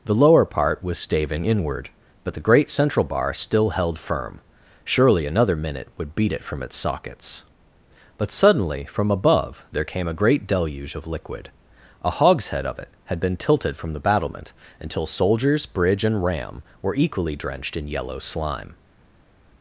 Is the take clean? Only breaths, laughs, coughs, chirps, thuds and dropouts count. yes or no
yes